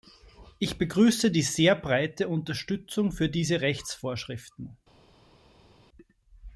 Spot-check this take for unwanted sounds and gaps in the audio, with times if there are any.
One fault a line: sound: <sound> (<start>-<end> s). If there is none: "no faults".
no faults